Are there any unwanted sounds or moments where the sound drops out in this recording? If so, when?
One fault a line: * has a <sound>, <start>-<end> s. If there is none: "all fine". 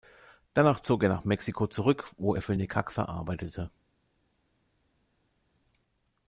all fine